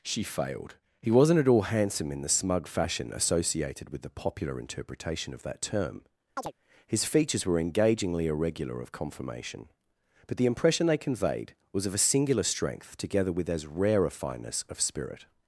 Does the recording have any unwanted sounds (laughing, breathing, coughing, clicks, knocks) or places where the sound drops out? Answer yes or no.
yes